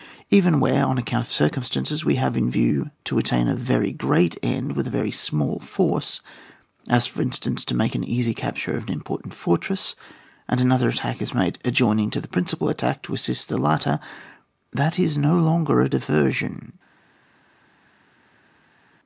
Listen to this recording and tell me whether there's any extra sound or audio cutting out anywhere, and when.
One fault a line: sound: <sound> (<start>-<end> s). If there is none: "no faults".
no faults